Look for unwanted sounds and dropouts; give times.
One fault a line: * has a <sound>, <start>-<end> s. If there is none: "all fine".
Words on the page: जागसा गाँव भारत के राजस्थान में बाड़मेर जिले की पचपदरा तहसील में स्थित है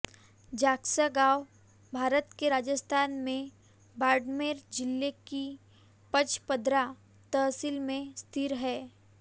all fine